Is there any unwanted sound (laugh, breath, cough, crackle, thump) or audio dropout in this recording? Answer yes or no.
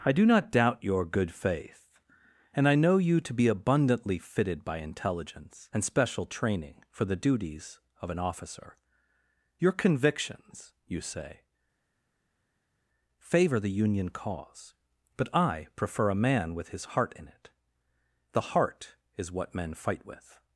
no